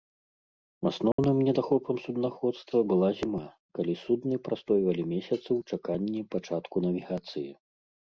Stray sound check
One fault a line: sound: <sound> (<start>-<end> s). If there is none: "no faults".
sound: dropout (1.1-1.2 s)